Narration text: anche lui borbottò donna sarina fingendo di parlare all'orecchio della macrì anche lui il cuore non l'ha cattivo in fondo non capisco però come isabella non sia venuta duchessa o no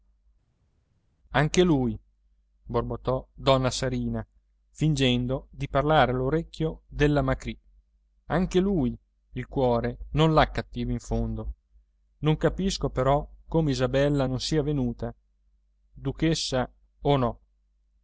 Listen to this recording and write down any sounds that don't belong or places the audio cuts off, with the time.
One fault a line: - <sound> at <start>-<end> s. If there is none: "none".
none